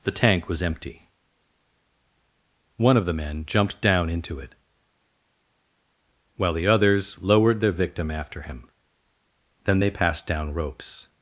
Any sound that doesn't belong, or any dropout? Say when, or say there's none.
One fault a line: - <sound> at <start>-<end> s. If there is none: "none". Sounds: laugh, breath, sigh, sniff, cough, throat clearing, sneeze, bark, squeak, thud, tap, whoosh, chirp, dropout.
none